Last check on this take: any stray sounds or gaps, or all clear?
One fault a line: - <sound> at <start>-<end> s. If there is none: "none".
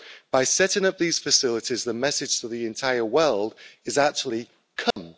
- dropout at 4.9-5.0 s